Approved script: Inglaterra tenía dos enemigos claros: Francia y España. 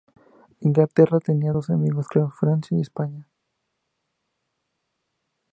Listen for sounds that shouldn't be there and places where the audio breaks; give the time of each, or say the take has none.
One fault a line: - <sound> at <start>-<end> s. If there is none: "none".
none